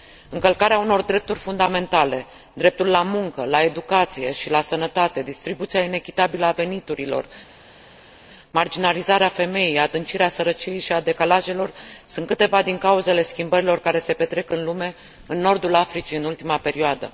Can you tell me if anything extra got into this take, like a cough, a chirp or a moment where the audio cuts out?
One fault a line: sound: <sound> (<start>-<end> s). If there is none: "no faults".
no faults